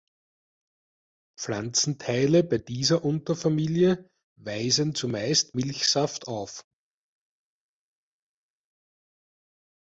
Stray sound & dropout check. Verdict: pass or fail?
pass